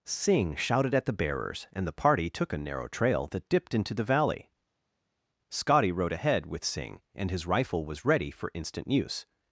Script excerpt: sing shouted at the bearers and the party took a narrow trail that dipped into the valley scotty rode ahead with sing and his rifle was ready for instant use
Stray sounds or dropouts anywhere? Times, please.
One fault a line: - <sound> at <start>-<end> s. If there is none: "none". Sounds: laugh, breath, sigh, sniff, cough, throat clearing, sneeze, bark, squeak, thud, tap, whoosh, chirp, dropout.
none